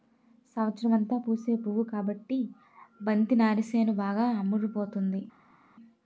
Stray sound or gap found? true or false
false